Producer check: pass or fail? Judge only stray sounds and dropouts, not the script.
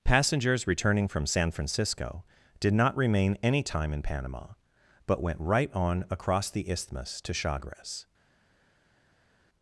pass